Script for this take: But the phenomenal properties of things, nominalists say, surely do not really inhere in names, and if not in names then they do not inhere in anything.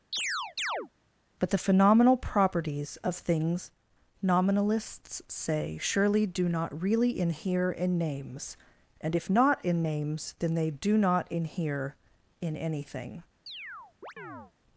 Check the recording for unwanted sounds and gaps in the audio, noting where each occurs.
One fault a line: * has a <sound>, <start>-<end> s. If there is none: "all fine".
* has a chirp, 0.1-0.9 s
* has a chirp, 13.5-14.5 s